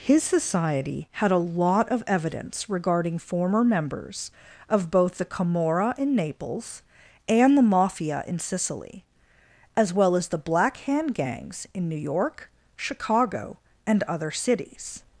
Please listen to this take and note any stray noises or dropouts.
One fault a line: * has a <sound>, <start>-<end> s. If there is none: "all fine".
all fine